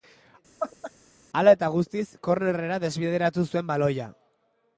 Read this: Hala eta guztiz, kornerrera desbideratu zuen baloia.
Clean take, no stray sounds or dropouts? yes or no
no